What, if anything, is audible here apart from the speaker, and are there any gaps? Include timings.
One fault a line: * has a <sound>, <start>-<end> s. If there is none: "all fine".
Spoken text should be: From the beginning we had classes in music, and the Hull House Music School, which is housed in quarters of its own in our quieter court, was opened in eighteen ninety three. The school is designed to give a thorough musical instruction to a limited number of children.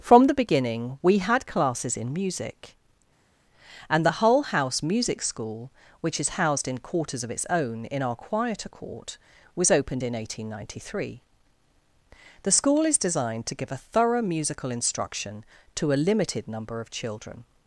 all fine